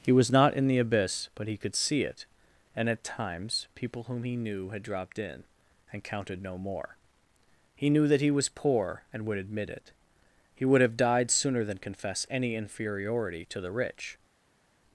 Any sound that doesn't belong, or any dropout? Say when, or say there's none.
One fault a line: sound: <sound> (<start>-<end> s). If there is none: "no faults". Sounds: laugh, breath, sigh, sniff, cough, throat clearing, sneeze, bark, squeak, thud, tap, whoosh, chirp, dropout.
no faults